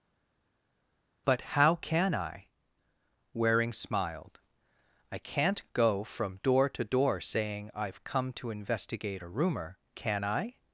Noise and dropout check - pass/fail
pass